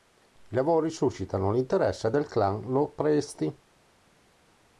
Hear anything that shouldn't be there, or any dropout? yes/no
no